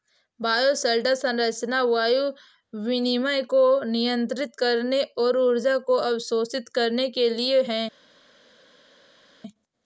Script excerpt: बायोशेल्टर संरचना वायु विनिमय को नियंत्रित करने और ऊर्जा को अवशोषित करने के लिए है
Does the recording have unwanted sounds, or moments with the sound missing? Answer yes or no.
no